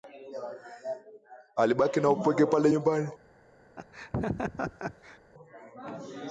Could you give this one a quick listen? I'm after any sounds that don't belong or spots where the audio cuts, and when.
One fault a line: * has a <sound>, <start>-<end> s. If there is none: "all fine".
* has a laugh, 3.8-5.2 s